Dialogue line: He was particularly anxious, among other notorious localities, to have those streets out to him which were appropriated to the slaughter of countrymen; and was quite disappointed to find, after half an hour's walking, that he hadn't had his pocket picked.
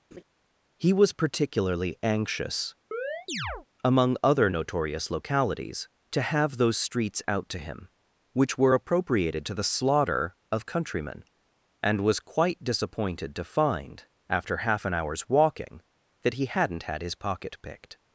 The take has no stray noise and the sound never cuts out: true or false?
false